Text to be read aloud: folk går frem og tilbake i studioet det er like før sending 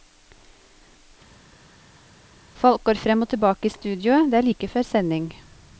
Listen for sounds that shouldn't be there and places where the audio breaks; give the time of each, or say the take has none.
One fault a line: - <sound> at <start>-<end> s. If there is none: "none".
none